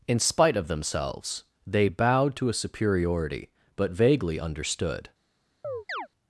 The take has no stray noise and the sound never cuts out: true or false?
false